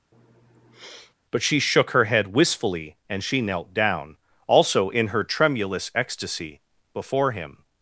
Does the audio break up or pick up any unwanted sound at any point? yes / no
yes